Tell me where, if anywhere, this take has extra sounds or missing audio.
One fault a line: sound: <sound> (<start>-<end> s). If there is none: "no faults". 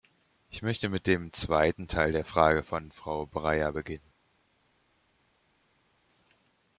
no faults